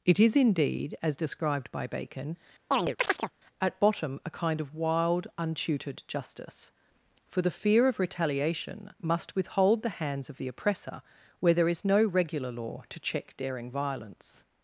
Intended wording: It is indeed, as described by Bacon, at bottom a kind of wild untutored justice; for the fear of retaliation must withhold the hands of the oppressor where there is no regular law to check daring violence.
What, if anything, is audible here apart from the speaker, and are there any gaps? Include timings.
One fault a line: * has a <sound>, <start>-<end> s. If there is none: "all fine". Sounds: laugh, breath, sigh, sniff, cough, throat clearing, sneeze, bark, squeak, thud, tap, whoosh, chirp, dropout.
* has a chirp, 2.7-3.3 s